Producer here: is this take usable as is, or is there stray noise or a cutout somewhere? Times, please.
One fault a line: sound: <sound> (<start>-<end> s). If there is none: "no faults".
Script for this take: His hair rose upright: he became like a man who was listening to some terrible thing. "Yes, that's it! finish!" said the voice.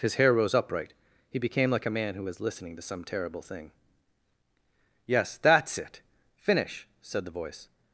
no faults